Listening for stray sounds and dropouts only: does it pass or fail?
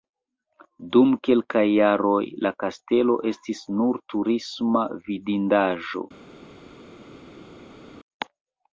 pass